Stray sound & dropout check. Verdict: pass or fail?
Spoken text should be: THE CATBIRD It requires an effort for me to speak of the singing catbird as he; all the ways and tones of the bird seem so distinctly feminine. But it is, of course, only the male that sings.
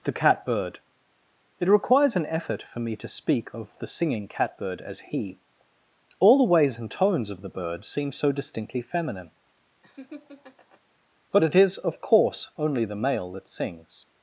fail